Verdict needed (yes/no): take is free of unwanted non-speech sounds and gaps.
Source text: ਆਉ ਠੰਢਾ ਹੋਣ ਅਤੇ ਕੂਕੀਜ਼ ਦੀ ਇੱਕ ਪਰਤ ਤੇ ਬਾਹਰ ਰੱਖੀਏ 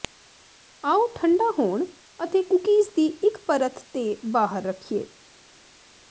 yes